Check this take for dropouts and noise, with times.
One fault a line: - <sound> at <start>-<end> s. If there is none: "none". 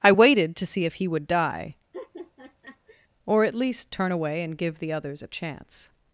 - laugh at 1.9-3.1 s